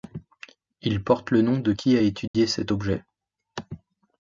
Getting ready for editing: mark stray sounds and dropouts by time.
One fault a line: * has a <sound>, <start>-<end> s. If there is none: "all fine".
* has a dropout, 2.3-2.3 s